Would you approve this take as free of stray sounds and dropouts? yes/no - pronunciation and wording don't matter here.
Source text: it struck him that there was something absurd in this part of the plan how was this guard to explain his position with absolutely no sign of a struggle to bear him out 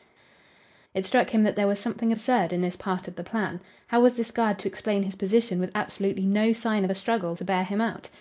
yes